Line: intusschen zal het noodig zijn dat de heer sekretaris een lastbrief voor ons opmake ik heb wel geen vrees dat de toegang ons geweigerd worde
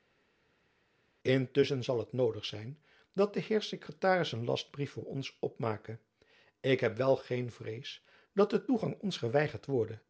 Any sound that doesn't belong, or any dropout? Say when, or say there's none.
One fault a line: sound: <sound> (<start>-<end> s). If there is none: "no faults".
no faults